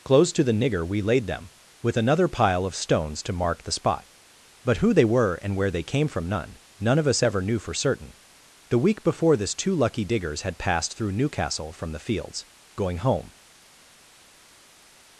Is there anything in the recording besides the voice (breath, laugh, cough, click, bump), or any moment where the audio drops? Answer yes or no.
no